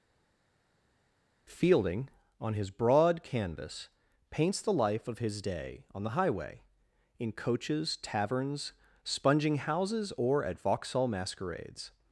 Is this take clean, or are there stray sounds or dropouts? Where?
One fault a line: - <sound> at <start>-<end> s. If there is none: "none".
none